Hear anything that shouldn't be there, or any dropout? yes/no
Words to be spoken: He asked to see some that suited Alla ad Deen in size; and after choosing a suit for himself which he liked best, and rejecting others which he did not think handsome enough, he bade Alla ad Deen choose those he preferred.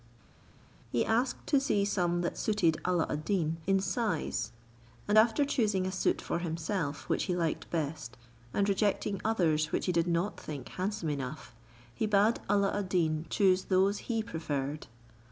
no